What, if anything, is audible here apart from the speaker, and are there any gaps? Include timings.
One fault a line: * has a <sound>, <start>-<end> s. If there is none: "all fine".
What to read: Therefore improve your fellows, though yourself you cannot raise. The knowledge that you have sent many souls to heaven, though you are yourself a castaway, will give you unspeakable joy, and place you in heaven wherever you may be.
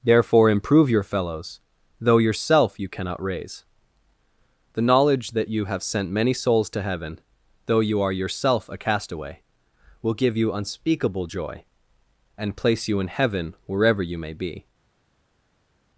all fine